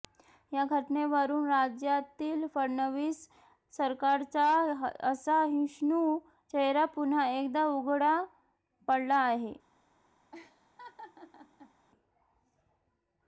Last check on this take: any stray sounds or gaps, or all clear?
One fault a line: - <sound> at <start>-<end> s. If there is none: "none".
- laugh at 10.3-11.7 s